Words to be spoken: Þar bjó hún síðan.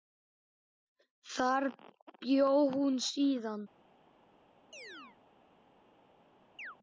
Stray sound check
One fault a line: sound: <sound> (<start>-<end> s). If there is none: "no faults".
sound: chirp (4.7-5.2 s)
sound: chirp (6.6-6.8 s)